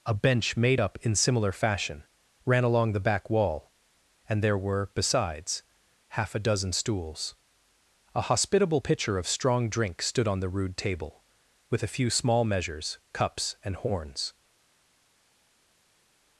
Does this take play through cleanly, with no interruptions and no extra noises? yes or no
yes